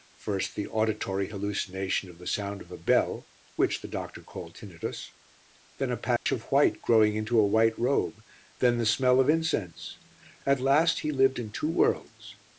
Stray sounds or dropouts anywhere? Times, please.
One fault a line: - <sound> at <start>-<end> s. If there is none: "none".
- dropout at 6.2-6.3 s